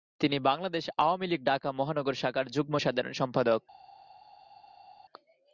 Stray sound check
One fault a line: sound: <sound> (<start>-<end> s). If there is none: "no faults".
no faults